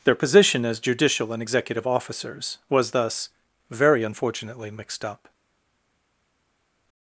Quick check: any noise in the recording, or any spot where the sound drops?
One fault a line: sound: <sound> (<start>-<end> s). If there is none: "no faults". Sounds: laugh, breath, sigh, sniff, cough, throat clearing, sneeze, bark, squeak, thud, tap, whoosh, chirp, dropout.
no faults